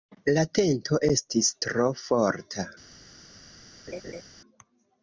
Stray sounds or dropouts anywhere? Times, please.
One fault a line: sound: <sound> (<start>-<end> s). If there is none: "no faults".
sound: laugh (3.9-4.2 s)